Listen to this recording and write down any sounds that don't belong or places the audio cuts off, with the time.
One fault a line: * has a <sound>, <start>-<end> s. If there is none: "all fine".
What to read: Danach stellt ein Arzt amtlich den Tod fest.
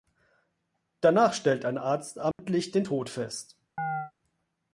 * has a dropout, 2.3-2.4 s
* has a chirp, 3.8-4.1 s